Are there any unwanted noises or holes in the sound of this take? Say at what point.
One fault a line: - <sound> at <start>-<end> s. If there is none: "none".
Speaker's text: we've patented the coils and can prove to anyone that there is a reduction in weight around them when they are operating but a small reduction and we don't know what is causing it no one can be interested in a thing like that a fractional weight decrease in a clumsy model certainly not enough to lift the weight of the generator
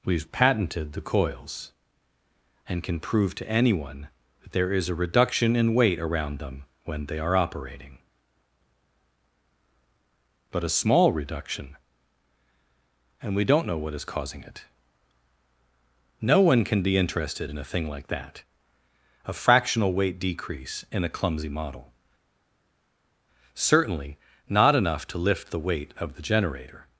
none